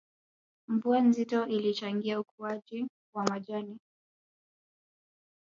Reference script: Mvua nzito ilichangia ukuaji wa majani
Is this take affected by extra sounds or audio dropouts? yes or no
no